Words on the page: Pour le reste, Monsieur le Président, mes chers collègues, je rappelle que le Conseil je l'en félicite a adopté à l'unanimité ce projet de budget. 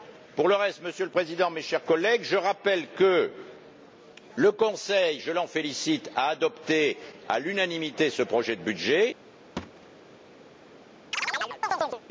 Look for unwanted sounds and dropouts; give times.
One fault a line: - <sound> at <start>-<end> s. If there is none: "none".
- thud at 9.6-9.9 s
- chirp at 11.1-12.0 s